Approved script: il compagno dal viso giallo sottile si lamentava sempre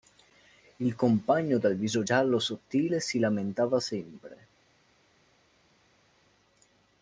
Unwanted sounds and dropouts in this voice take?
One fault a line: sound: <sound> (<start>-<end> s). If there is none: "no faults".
no faults